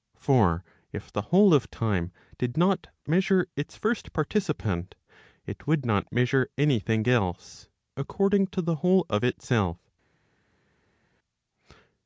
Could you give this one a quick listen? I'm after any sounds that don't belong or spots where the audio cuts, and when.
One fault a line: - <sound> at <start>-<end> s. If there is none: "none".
none